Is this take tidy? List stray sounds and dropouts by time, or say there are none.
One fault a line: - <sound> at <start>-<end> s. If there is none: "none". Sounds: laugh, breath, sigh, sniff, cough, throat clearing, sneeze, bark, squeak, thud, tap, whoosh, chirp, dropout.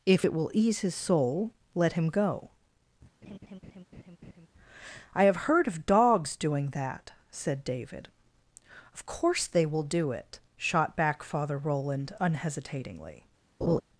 - laugh at 3.2-4.5 s
- laugh at 13.6-13.8 s